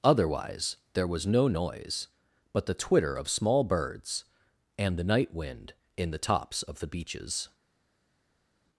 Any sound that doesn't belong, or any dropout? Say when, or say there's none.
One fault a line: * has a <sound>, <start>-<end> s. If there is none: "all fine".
all fine